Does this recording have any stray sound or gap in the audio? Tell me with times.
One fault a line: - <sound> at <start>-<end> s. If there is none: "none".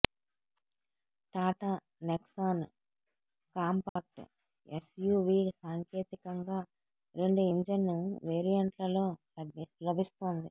- dropout at 3.9-4.0 s